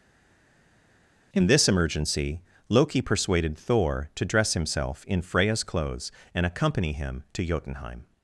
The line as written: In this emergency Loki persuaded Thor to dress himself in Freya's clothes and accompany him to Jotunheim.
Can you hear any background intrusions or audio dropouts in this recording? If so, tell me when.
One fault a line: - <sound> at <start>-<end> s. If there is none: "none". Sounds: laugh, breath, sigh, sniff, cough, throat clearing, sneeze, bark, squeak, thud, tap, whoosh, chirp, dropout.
none